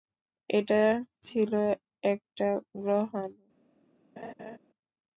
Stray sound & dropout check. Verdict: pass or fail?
fail